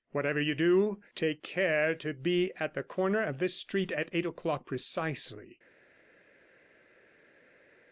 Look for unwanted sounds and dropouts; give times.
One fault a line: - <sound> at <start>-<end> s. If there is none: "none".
none